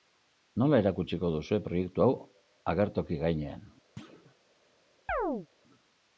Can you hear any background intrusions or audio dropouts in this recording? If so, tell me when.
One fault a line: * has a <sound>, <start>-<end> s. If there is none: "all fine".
* has a thud, 4.0-4.3 s
* has a chirp, 5.1-5.5 s